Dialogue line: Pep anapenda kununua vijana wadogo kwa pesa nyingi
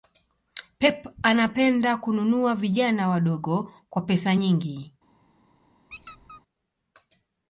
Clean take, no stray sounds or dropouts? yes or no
no